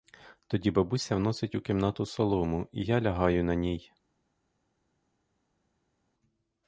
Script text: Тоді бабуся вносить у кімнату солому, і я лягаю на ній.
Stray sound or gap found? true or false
false